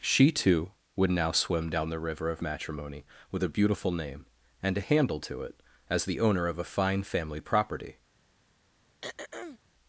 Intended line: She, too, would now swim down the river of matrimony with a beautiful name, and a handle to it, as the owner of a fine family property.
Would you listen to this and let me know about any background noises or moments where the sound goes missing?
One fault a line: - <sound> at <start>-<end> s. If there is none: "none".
- throat clearing at 9.0-9.6 s